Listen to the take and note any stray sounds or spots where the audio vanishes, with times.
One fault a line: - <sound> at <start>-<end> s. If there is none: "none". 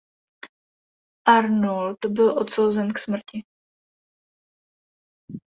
none